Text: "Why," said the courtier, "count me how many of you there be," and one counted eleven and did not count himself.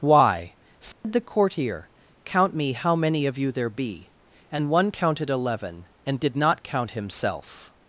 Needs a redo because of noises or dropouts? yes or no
yes